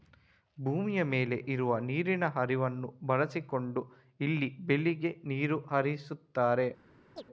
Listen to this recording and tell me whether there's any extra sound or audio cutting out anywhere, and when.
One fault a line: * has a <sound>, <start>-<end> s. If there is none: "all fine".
* has a chirp, 7.2-7.2 s